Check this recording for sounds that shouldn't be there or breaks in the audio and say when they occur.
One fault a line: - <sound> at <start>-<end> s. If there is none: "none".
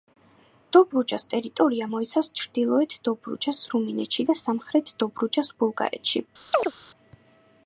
- chirp at 6.5-6.7 s